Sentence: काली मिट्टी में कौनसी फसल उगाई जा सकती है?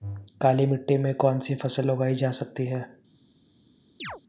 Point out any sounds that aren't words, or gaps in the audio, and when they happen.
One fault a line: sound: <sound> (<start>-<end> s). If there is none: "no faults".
sound: chirp (4.0-4.2 s)